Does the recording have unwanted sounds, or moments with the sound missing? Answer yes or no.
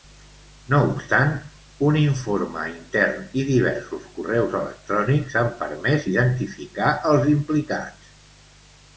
no